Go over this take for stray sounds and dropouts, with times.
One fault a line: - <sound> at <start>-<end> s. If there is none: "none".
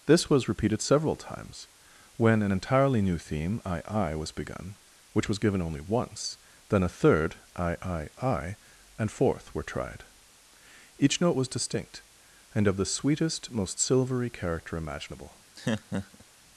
- laugh at 15.6-16.2 s